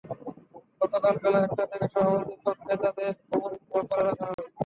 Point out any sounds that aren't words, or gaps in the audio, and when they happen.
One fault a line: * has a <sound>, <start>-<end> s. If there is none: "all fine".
* has a dropout, 4.3-4.4 s